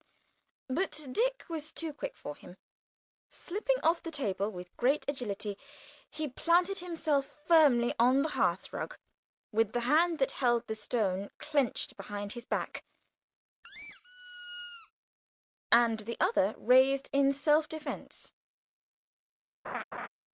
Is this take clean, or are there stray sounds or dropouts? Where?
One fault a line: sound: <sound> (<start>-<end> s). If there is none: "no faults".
sound: squeak (13.6-14.9 s)
sound: laugh (19.6-20.1 s)